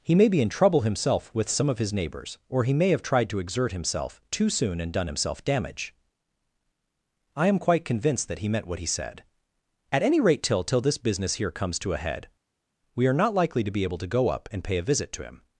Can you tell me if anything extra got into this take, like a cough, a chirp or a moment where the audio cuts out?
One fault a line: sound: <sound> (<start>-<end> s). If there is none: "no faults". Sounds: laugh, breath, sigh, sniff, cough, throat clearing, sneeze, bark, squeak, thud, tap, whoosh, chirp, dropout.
no faults